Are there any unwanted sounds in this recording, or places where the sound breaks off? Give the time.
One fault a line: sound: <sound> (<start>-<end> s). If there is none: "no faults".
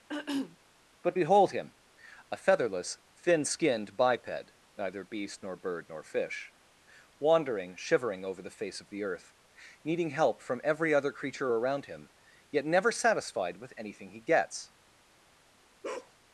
sound: throat clearing (0.1-0.6 s)
sound: bark (15.8-16.1 s)